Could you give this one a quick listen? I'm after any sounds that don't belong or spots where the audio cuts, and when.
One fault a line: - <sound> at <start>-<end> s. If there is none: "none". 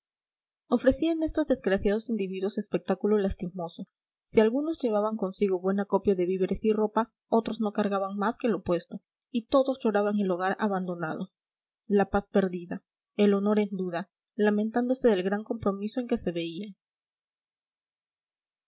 none